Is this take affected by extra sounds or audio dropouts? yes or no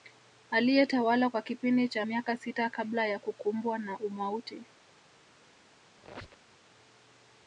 yes